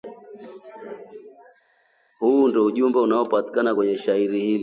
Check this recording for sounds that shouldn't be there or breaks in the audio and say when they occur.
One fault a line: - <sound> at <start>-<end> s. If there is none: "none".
none